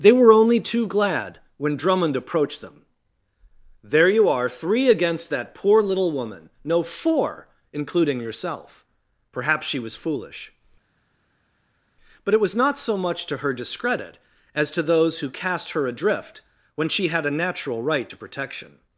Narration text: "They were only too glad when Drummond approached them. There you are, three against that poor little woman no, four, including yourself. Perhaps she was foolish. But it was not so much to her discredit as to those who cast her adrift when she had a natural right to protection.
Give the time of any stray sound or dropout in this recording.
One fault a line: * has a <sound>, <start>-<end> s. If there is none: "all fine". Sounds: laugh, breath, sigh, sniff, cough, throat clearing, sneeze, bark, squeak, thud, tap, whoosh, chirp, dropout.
all fine